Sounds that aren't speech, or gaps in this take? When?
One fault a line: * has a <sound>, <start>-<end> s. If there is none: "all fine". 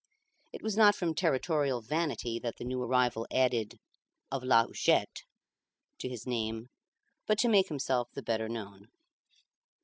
all fine